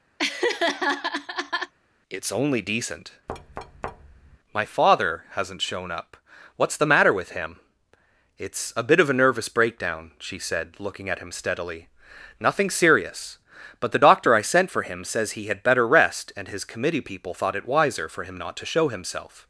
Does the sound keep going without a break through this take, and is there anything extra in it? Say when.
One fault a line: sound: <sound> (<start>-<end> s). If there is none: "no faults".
sound: laugh (0.2-1.7 s)
sound: thud (3.3-4.4 s)